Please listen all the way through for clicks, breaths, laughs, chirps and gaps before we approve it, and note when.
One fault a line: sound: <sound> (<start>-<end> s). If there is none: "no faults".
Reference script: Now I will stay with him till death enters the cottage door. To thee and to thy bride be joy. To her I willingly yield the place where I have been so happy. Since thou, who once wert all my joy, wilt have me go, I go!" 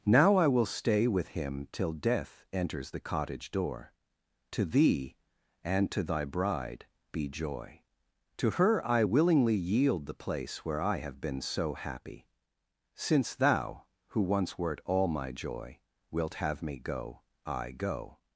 no faults